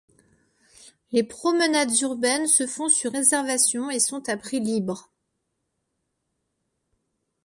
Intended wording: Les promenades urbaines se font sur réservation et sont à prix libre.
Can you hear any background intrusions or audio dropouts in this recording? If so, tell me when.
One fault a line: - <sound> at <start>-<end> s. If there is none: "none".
none